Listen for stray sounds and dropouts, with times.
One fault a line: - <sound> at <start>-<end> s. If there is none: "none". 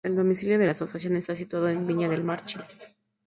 none